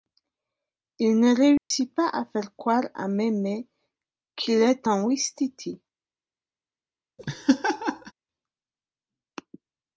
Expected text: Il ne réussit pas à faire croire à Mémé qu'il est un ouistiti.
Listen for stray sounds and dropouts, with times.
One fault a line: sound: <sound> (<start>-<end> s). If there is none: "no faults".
sound: dropout (1.6-1.7 s)
sound: laugh (7.2-8.1 s)